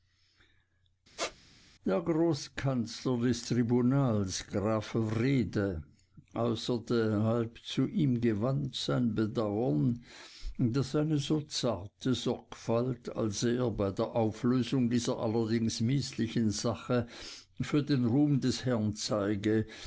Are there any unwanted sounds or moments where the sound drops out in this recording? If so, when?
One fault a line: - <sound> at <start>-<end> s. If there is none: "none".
- squeak at 1.2-1.4 s